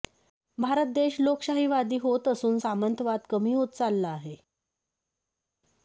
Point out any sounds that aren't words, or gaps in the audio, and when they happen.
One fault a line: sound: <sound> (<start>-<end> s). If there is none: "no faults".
no faults